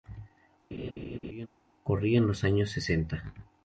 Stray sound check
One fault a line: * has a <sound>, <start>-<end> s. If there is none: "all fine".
* has a laugh, 0.7-1.5 s